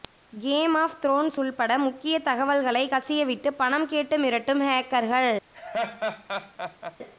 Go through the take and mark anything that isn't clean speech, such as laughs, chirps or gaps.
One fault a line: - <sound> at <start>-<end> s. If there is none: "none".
- laugh at 5.5-7.0 s